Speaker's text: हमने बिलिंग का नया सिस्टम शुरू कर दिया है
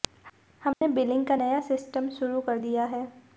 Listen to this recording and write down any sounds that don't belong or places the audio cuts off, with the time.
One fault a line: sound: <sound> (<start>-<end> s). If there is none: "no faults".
sound: dropout (0.7-0.8 s)